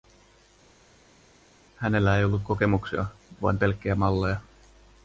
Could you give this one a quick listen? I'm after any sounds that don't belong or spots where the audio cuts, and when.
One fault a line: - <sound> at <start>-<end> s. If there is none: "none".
none